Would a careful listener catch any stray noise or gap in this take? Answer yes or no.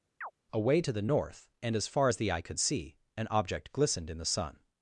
yes